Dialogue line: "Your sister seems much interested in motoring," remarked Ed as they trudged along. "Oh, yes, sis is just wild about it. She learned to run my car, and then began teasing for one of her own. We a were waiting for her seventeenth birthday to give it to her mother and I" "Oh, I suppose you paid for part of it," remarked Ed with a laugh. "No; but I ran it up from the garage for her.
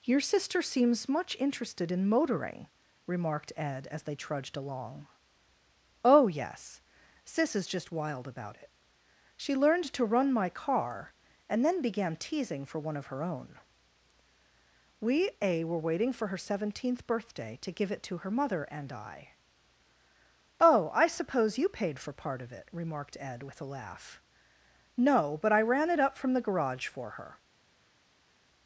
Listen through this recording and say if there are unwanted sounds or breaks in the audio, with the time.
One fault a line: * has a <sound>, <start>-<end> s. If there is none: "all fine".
all fine